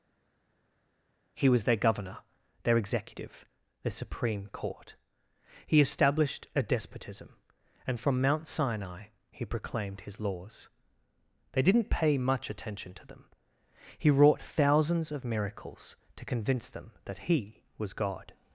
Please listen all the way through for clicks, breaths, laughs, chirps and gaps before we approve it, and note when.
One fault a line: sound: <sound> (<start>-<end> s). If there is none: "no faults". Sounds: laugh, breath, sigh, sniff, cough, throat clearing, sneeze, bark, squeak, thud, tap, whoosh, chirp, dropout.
no faults